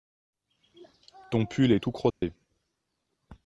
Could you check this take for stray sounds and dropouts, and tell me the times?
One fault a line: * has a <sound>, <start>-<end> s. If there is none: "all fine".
* has a dropout, 2.1-2.2 s